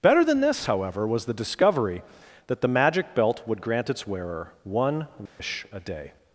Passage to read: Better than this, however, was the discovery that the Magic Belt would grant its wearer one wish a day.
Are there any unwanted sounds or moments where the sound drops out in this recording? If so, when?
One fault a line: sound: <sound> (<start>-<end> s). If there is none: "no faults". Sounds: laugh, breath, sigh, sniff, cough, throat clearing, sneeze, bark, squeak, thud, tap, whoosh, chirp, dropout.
sound: dropout (5.3-5.4 s)